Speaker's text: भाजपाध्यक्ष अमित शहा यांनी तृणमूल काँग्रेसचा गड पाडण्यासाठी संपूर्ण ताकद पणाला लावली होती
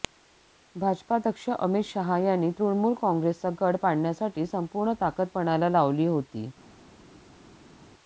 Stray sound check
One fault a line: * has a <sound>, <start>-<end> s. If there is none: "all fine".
all fine